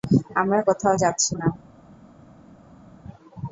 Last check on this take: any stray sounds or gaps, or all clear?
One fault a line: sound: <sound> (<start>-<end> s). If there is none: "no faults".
no faults